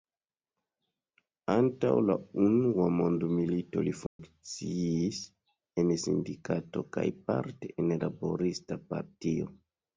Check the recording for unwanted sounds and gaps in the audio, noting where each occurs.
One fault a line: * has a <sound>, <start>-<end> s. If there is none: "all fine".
* has a dropout, 4.1-4.2 s